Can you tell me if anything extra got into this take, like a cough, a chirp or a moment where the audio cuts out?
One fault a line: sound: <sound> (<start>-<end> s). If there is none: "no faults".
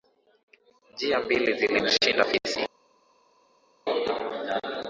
no faults